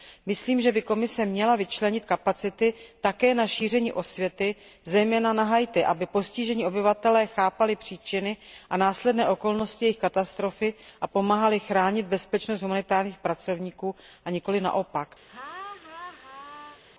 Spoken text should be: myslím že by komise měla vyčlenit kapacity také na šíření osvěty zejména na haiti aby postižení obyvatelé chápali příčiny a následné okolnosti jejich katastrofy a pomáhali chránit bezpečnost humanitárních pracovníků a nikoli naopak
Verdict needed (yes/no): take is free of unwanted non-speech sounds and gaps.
no